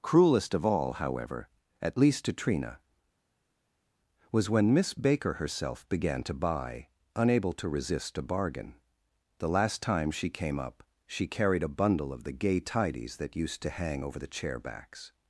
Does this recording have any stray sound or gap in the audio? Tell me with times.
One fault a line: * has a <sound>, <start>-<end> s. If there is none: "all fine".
all fine